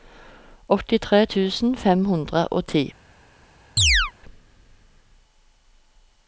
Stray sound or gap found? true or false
true